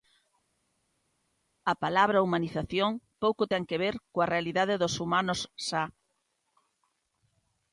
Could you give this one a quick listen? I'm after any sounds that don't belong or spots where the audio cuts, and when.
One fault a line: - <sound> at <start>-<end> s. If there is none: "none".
none